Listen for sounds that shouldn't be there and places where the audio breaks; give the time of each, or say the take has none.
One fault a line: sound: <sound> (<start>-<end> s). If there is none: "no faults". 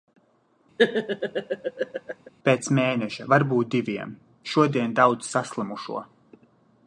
sound: laugh (0.8-2.3 s)